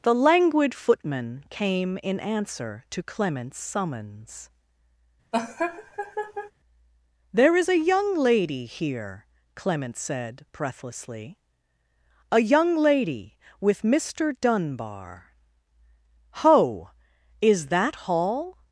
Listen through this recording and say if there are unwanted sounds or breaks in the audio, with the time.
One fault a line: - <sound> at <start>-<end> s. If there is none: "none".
- laugh at 5.3-6.5 s